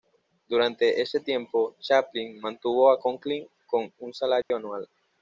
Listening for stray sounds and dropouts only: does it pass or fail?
fail